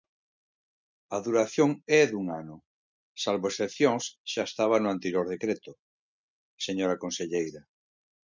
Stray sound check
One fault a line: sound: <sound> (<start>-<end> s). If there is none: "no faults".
no faults